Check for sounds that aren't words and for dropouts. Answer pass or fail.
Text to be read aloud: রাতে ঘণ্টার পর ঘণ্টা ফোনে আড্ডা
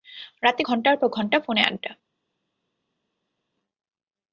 pass